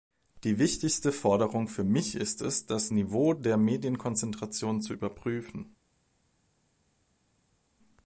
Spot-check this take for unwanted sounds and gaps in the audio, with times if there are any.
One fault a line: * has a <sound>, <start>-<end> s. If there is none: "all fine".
all fine